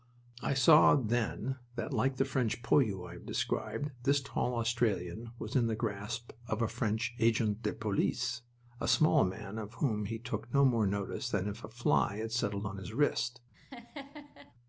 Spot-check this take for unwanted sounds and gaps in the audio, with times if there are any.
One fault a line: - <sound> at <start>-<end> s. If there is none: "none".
- laugh at 13.5-14.5 s